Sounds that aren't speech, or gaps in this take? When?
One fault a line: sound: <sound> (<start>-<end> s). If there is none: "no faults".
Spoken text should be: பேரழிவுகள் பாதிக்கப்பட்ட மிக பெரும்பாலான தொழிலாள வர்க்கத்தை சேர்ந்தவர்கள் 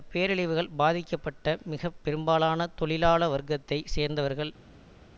no faults